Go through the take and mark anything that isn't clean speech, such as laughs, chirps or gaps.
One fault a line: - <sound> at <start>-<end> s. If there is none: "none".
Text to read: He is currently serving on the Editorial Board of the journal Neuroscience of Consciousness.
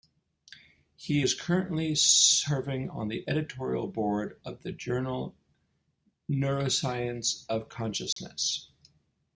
- dropout at 8.1-8.2 s